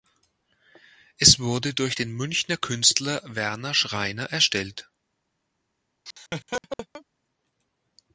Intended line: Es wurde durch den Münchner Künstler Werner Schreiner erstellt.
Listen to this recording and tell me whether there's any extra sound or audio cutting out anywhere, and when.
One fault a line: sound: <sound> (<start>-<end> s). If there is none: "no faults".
sound: laugh (6.1-7.0 s)